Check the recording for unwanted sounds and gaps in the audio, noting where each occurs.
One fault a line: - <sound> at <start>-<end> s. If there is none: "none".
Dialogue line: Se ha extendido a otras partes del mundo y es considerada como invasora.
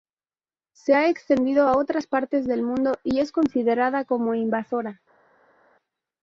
none